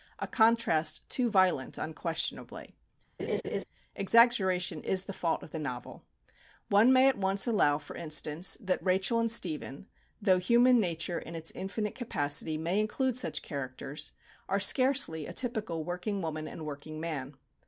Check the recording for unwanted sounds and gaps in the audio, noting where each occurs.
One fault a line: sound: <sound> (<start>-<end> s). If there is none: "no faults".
sound: laugh (3.2-3.6 s)